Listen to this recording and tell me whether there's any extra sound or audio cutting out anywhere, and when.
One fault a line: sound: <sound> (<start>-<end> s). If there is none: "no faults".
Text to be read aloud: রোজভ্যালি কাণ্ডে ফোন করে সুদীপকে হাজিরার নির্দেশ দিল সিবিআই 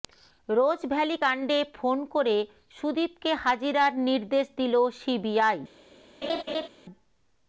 sound: laugh (6.2-6.7 s)